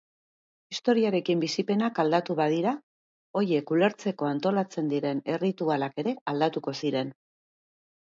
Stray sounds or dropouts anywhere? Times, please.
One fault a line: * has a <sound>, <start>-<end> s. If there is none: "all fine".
all fine